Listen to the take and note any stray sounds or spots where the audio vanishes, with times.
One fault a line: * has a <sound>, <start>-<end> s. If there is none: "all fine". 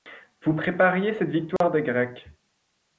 * has a dropout, 1.6-1.6 s